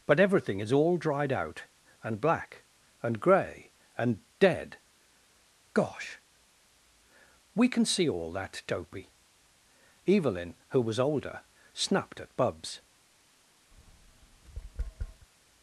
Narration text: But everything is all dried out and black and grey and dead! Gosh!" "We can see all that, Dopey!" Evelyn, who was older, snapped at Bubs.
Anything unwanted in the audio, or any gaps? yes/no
yes